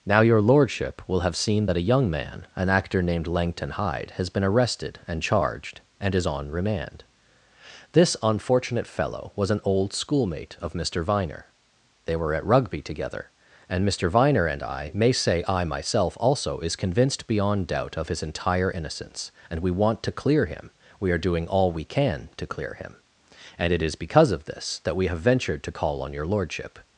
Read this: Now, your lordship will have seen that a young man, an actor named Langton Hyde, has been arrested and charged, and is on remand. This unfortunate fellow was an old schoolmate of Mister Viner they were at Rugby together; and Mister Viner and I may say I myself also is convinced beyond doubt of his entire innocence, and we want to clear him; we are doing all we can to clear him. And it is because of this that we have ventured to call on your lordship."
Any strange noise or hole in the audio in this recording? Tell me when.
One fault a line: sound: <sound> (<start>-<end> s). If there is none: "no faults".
no faults